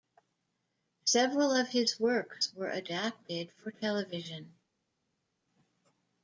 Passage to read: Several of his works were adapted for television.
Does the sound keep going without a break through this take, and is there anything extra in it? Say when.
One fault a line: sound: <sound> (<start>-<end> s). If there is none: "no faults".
no faults